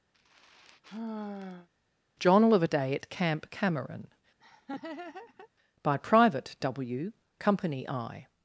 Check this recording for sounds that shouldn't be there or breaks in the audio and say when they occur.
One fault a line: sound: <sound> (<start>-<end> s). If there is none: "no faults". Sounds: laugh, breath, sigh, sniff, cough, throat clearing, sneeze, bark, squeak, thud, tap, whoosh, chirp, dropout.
sound: sigh (0.1-1.7 s)
sound: laugh (4.4-5.5 s)